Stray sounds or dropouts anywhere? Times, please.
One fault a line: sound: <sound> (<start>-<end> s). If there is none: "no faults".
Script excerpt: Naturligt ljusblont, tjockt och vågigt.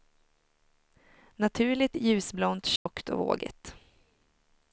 sound: dropout (2.8-2.9 s)